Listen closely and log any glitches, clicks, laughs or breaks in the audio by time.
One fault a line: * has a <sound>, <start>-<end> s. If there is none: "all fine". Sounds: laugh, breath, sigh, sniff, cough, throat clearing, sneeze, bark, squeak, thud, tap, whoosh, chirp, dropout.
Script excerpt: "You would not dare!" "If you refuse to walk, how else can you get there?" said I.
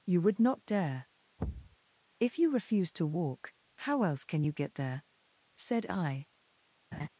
* has a thud, 1.4-1.8 s
* has a laugh, 6.9-7.1 s